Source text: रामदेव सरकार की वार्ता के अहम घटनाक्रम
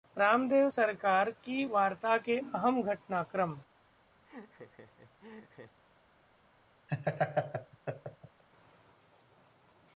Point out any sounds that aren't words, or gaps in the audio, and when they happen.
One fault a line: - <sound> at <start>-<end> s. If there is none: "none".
- laugh at 4.2-5.8 s
- laugh at 6.9-8.4 s